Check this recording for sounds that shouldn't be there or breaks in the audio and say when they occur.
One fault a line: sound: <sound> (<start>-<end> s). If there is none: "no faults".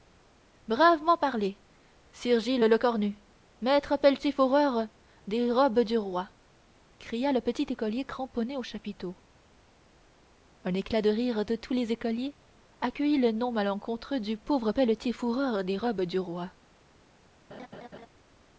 sound: laugh (17.5-18.1 s)